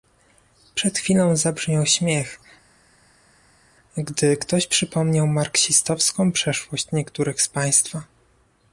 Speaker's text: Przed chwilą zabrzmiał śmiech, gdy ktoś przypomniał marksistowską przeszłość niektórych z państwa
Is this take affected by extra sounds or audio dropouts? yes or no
no